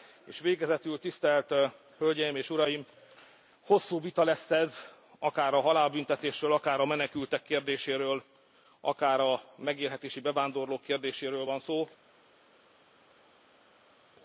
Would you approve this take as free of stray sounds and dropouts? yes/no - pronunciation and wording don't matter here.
yes